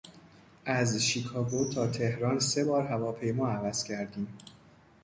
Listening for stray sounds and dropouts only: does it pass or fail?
pass